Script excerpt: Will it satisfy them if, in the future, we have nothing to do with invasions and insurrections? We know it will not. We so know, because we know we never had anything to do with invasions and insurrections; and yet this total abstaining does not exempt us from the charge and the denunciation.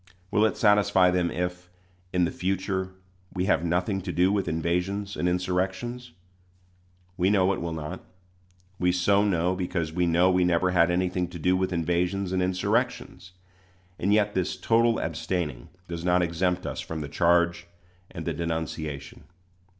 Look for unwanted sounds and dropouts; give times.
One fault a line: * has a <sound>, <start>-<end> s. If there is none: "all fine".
all fine